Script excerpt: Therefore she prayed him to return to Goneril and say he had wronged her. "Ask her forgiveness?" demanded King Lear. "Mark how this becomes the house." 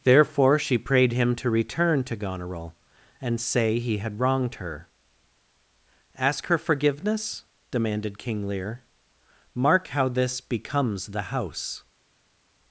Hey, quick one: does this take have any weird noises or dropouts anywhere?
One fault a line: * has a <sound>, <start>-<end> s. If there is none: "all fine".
all fine